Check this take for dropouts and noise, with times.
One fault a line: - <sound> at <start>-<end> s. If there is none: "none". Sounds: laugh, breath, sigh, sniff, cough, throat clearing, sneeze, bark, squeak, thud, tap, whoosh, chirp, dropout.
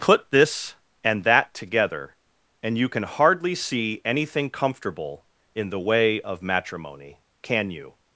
none